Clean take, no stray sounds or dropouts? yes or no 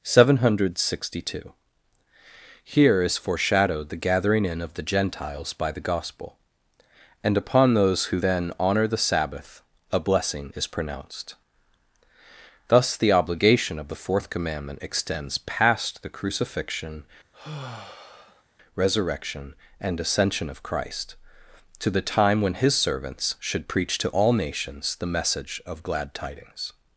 no